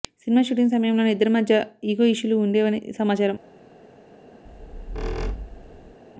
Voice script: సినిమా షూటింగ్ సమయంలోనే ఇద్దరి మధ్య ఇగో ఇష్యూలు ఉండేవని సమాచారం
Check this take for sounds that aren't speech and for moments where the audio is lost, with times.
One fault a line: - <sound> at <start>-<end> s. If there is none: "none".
- squeak at 4.5-6.0 s